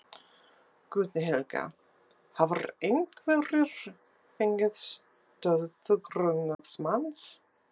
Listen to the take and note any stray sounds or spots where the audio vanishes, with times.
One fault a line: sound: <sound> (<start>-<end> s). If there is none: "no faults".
sound: dropout (6.5-6.6 s)